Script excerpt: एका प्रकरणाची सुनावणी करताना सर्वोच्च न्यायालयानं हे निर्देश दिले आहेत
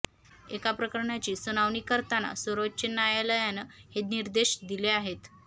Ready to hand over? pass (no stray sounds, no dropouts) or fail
pass